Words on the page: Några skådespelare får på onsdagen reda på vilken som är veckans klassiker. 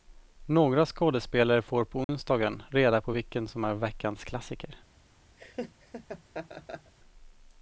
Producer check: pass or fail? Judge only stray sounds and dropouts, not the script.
fail